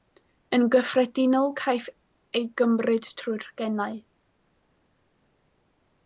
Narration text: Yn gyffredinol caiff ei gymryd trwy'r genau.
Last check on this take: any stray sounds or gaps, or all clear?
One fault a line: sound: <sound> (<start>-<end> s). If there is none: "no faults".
no faults